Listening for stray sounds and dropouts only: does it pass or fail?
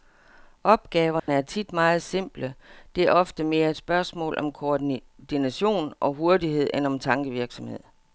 fail